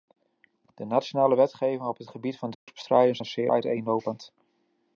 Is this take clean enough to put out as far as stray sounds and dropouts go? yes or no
no